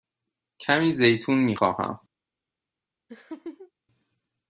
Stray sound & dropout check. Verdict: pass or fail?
fail